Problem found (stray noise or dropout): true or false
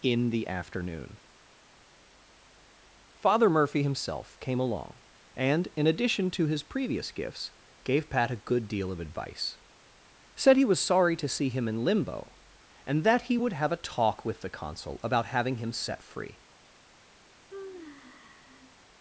true